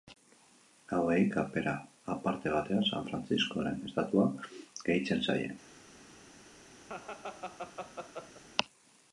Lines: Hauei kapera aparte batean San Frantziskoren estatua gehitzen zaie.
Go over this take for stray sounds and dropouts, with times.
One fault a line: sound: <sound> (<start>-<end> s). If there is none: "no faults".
sound: laugh (6.9-8.4 s)